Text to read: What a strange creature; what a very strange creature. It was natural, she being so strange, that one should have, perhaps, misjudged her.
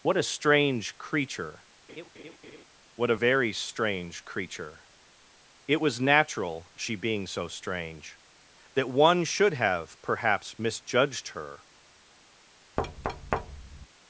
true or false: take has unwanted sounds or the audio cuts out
true